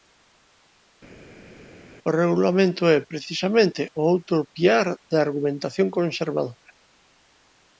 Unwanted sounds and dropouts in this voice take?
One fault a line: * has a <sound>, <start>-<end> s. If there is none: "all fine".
all fine